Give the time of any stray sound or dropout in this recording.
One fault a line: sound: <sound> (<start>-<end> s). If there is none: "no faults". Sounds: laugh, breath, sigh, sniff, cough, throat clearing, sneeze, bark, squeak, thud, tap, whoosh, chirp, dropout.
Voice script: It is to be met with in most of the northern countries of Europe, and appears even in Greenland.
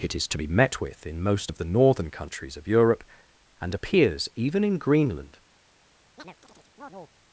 sound: chirp (6.2-7.1 s)